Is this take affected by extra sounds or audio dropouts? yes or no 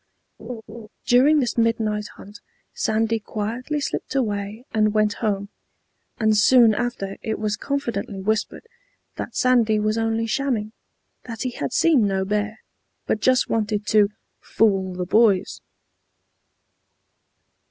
yes